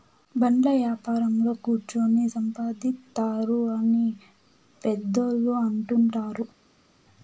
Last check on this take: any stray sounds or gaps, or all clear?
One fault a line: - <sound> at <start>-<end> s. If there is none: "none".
none